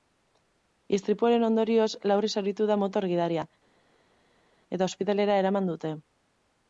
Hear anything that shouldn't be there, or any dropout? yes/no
no